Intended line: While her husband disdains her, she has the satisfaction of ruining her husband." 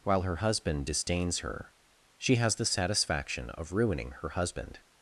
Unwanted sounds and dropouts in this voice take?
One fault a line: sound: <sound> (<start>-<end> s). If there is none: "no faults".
no faults